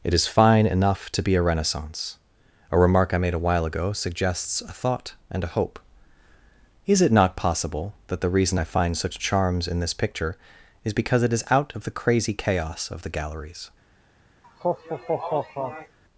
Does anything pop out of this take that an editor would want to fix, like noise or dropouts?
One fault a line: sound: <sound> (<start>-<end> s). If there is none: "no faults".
sound: laugh (14.4-16.0 s)